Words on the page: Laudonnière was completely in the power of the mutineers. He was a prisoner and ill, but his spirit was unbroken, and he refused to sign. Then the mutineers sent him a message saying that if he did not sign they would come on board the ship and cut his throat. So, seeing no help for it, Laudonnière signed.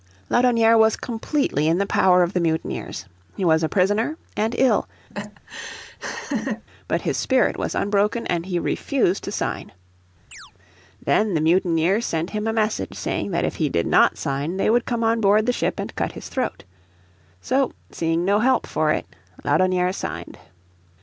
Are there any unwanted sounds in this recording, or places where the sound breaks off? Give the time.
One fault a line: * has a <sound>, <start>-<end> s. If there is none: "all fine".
* has a laugh, 5.1-6.6 s
* has a chirp, 10.3-10.5 s